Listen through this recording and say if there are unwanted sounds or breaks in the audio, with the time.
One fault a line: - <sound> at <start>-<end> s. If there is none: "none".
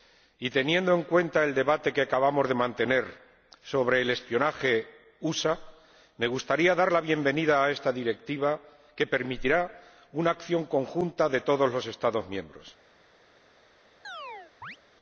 - chirp at 14.0-14.8 s